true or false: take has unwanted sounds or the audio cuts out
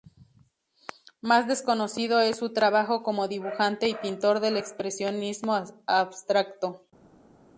false